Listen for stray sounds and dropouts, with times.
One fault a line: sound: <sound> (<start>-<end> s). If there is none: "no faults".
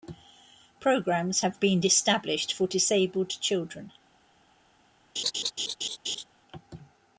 sound: laugh (5.2-6.2 s)